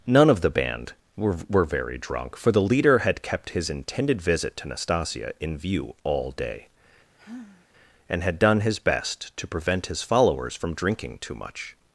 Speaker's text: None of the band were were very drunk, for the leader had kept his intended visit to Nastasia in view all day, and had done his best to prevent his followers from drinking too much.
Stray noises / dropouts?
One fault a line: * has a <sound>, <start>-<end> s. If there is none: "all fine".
* has a sigh, 7.2-7.7 s